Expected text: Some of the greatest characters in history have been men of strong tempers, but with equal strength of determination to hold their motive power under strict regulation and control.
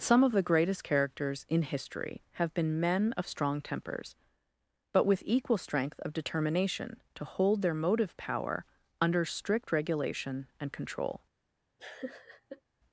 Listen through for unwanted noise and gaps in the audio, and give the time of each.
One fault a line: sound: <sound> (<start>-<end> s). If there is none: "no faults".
sound: laugh (11.8-12.6 s)